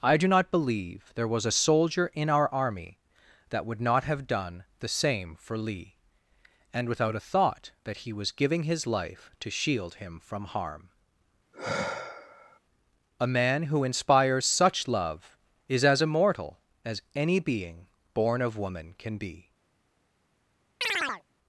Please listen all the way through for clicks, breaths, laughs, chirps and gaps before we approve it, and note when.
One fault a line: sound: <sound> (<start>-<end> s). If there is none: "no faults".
sound: sigh (11.5-12.6 s)
sound: chirp (20.8-21.2 s)